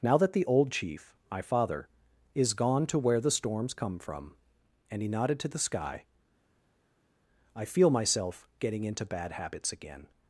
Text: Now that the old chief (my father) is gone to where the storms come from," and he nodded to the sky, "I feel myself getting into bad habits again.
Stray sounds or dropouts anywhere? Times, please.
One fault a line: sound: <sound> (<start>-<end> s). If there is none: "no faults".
no faults